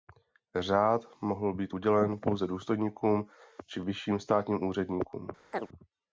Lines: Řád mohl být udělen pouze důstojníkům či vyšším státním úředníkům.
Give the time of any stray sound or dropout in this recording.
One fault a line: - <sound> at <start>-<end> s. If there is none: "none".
- chirp at 5.5-5.7 s